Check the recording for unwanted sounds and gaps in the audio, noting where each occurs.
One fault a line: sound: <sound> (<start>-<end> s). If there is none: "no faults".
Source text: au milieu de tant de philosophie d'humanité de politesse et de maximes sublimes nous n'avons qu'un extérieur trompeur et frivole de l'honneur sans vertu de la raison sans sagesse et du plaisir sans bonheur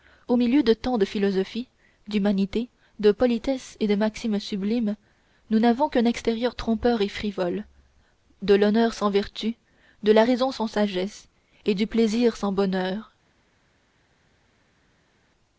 no faults